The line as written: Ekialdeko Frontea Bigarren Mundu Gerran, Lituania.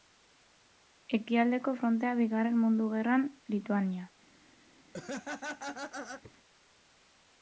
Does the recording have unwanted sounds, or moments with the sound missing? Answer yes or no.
yes